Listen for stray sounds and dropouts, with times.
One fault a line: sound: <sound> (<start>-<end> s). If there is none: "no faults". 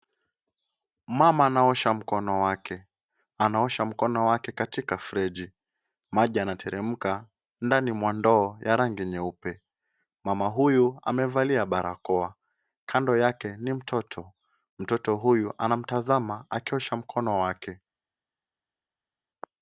no faults